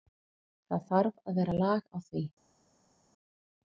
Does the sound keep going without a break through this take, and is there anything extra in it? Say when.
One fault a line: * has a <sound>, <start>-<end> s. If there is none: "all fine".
all fine